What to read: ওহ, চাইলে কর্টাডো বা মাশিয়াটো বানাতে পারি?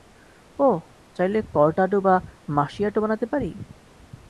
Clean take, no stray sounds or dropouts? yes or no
yes